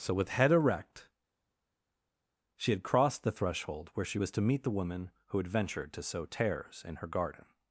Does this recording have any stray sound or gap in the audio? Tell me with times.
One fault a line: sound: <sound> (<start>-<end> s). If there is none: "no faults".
no faults